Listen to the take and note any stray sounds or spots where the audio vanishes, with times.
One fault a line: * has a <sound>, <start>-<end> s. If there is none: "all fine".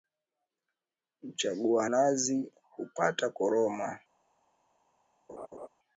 * has a laugh, 5.3-5.7 s